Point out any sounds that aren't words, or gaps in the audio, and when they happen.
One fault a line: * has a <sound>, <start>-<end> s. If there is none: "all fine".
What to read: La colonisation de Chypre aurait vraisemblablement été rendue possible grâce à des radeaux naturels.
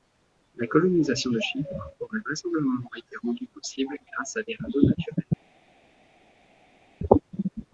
all fine